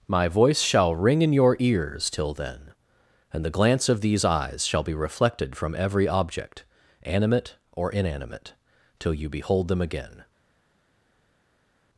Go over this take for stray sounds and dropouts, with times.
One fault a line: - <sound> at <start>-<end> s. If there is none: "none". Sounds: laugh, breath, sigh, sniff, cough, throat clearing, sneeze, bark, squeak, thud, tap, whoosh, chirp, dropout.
none